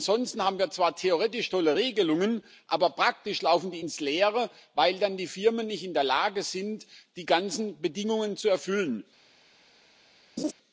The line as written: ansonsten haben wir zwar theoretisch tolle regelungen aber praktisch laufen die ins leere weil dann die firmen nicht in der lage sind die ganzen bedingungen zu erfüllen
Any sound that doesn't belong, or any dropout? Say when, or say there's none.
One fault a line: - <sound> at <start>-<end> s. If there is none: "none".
- laugh at 10.4-10.5 s